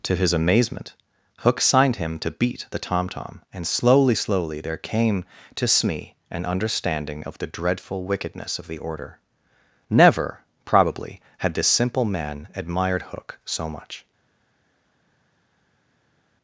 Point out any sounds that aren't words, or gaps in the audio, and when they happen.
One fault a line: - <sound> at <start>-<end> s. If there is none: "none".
none